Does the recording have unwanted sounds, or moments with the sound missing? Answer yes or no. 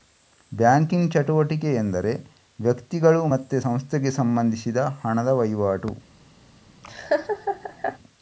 yes